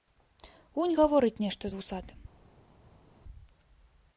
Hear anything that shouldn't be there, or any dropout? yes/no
no